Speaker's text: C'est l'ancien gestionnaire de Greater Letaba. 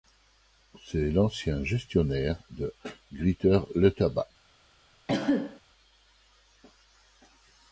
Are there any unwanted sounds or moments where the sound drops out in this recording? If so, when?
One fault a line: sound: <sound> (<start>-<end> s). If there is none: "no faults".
sound: cough (5.1-5.6 s)